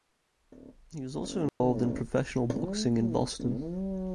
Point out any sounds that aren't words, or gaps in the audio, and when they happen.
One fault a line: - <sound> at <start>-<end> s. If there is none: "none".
- dropout at 1.5-1.6 s